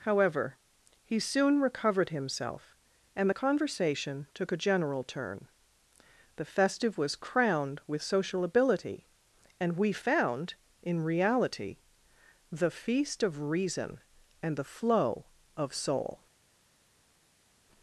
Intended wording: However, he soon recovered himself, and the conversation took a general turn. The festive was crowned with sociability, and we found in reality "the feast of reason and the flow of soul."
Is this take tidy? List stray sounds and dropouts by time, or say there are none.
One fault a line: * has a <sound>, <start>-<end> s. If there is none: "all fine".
all fine